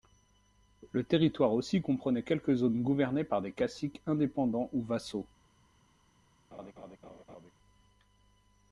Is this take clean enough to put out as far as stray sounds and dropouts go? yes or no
no